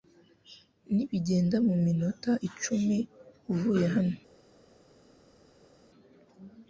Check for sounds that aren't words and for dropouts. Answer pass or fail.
pass